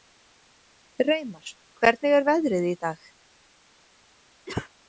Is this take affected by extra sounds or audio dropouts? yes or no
yes